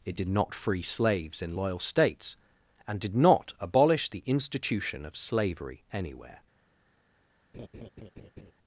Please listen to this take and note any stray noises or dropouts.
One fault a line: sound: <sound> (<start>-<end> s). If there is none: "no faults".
sound: laugh (7.5-8.5 s)